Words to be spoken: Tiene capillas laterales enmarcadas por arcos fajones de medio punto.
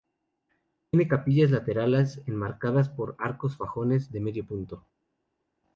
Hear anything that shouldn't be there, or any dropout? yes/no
no